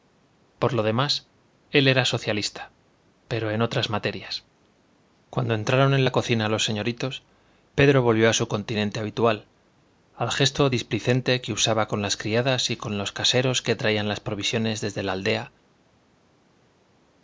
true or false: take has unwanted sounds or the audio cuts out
false